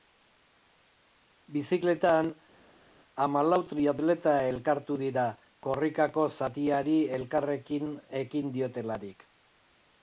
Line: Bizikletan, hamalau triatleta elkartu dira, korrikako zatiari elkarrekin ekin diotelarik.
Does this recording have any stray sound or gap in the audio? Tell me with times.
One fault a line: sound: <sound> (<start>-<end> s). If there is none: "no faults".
no faults